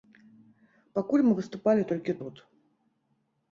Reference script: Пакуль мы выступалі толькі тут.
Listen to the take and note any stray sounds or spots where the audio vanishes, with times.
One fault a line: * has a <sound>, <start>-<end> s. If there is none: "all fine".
all fine